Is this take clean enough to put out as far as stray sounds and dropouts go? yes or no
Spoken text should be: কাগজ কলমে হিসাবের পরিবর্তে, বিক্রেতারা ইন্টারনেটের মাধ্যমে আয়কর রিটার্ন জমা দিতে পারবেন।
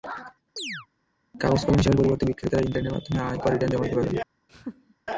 no